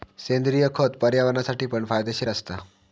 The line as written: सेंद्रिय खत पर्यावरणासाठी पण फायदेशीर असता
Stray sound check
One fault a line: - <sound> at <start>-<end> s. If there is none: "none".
none